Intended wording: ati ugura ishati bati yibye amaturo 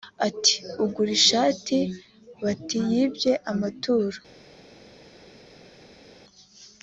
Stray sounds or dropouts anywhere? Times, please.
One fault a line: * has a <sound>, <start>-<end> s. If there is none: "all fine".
all fine